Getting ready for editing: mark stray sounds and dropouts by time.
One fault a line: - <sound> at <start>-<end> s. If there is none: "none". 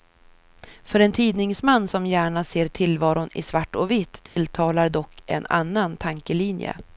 - dropout at 4.3-4.4 s